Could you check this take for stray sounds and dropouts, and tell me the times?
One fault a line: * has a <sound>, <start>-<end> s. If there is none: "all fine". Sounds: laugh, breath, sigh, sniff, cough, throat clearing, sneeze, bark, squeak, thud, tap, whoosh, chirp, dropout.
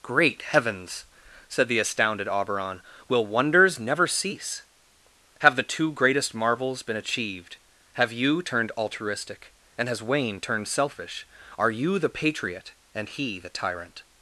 all fine